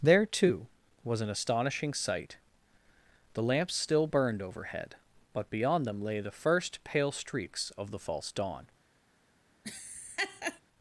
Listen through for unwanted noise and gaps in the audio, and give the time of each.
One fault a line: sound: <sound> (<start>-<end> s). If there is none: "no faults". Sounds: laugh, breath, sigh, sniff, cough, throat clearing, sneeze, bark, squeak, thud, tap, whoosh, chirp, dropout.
sound: laugh (9.6-10.6 s)